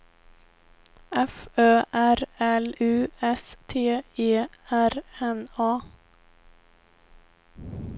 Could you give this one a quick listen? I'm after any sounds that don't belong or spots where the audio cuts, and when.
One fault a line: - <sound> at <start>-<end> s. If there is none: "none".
none